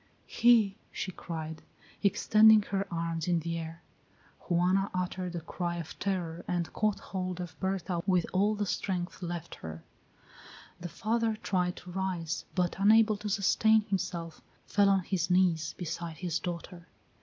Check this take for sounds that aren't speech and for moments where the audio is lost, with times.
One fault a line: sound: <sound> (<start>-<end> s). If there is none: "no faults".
no faults